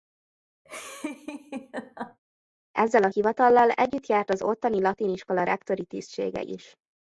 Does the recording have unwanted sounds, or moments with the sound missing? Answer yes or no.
yes